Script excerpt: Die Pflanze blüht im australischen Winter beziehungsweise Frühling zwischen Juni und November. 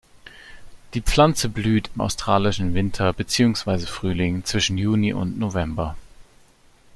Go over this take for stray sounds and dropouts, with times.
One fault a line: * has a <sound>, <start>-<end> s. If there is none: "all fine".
all fine